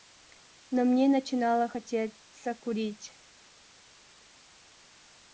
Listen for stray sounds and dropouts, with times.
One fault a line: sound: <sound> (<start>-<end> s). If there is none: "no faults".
no faults